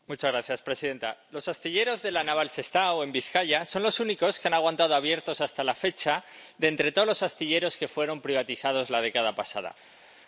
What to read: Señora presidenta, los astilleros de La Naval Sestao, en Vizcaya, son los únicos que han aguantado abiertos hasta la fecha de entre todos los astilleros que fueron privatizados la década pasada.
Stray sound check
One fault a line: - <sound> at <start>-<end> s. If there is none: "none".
none